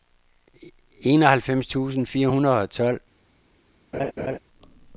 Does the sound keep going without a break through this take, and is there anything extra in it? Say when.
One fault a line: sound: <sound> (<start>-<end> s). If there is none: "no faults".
sound: laugh (3.9-4.4 s)